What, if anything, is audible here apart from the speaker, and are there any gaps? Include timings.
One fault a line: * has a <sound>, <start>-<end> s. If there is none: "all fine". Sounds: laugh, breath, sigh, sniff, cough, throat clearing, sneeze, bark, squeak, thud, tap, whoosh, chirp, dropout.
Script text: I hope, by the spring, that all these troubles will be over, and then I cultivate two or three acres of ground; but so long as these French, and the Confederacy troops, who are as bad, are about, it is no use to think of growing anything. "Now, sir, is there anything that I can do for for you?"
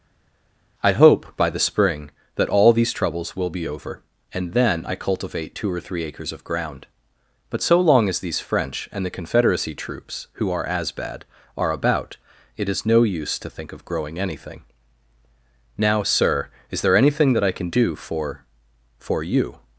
all fine